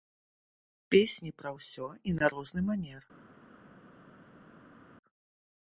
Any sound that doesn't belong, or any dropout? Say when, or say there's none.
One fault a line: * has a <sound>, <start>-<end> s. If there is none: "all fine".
all fine